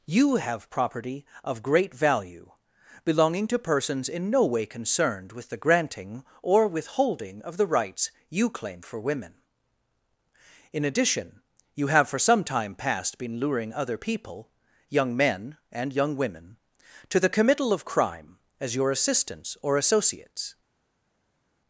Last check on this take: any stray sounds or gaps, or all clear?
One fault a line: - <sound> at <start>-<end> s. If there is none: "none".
none